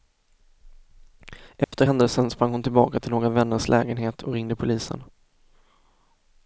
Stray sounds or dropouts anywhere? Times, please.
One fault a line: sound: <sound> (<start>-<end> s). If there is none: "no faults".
sound: dropout (1.6-1.7 s)